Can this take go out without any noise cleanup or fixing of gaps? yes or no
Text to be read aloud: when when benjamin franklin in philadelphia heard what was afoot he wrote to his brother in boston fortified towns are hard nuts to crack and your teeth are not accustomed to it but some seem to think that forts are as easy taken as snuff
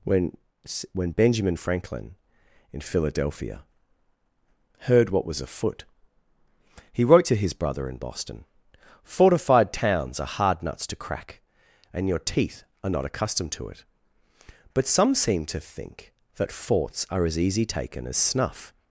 yes